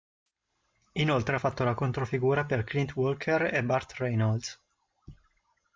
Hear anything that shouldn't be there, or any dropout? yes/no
no